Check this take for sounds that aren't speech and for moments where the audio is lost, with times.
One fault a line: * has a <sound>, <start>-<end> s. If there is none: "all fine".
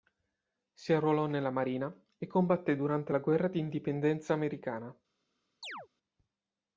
* has a chirp, 5.6-5.9 s